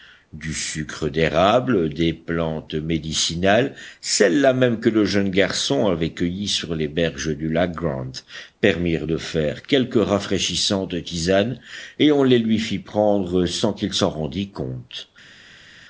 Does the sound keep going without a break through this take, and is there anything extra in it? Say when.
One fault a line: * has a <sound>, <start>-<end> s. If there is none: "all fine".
all fine